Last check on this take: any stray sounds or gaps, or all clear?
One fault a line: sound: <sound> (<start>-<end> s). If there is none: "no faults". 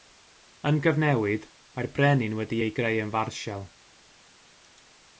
no faults